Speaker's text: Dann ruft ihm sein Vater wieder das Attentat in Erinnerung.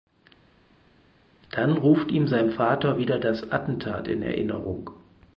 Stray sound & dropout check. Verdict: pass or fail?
pass